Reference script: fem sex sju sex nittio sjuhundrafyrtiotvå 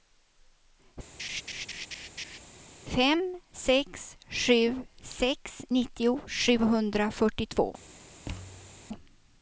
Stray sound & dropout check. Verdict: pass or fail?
fail